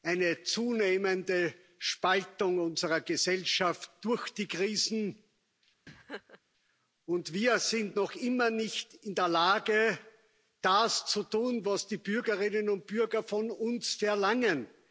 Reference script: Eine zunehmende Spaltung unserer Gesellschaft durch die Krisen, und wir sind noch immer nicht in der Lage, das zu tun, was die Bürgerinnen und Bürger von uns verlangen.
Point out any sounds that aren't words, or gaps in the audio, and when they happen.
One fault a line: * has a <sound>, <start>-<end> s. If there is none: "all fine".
* has a laugh, 5.9-6.4 s